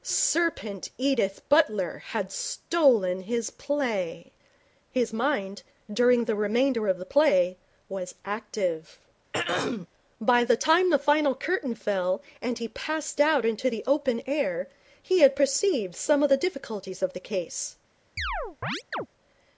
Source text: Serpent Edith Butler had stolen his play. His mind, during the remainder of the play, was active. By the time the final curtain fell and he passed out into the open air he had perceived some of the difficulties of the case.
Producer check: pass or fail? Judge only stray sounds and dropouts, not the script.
fail